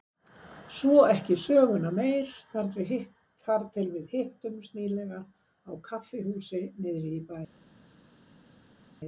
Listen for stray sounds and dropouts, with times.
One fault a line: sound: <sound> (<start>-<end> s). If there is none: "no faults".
no faults